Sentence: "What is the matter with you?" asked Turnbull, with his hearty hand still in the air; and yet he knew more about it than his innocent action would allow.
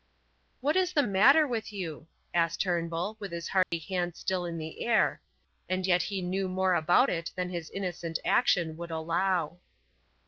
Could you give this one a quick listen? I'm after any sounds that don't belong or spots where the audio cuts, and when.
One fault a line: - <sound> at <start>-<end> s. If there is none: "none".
- dropout at 3.6-3.7 s